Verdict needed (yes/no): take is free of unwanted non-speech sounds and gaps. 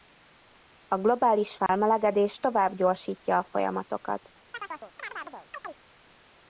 no